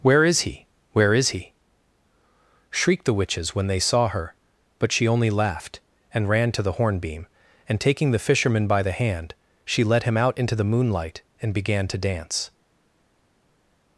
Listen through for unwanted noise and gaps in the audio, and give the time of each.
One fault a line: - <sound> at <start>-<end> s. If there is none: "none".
none